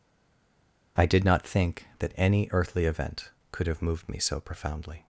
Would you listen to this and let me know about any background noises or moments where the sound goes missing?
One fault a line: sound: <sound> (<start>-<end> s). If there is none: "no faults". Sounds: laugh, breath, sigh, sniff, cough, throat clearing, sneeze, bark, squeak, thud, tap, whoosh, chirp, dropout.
no faults